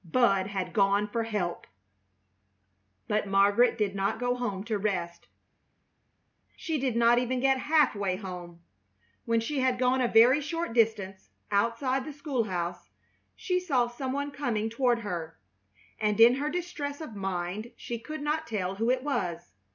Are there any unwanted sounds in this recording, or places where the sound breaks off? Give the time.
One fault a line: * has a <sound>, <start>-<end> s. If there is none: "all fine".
all fine